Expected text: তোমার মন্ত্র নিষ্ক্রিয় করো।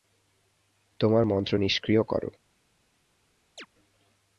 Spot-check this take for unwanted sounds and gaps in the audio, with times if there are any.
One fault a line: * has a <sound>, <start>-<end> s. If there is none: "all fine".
* has a chirp, 3.6-3.7 s